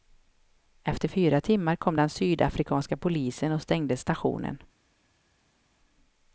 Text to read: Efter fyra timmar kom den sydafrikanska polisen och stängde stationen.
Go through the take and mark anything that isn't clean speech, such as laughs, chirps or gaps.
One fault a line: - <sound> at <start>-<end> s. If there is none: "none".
none